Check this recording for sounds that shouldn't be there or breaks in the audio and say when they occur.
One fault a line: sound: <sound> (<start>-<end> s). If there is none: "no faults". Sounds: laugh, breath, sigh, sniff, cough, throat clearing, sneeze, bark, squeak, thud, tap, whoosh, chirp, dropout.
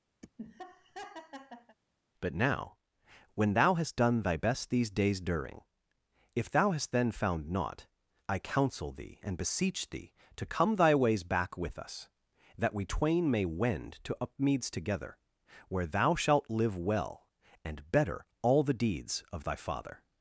sound: laugh (0.2-1.8 s)